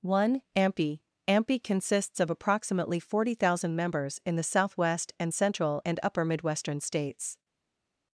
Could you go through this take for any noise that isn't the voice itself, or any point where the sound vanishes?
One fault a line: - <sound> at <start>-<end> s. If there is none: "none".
none